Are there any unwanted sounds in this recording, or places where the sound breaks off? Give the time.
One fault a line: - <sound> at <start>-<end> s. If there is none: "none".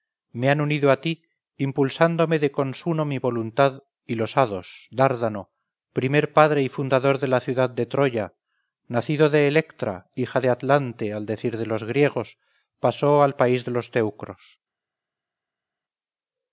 none